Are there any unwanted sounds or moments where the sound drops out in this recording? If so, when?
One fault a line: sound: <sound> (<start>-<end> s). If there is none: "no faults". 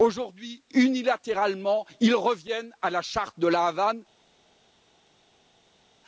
no faults